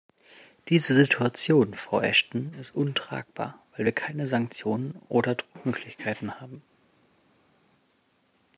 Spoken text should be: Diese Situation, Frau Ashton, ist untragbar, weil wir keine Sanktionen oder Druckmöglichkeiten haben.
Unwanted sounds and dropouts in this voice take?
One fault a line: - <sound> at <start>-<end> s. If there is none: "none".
none